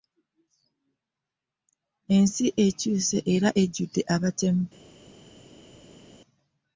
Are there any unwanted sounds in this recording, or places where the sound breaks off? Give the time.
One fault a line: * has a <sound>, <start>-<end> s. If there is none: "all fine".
all fine